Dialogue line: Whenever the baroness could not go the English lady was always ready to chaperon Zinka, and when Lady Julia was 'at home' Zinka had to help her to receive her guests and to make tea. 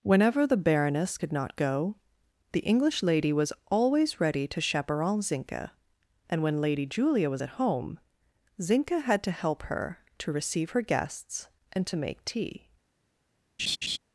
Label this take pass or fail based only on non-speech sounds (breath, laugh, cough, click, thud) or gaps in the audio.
fail